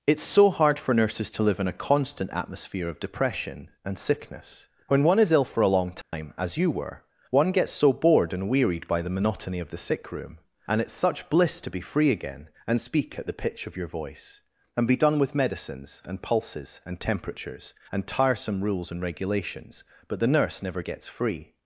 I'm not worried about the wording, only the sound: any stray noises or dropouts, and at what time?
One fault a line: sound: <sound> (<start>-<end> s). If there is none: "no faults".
sound: dropout (6.0-6.1 s)